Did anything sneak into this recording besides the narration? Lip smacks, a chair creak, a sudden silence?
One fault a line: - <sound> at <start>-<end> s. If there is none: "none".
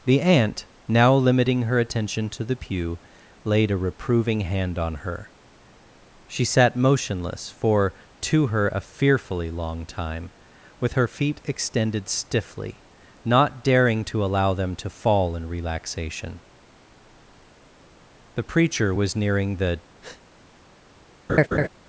- breath at 20.0-20.2 s
- laugh at 21.3-21.7 s